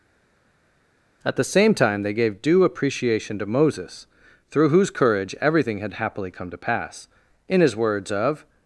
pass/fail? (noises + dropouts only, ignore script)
pass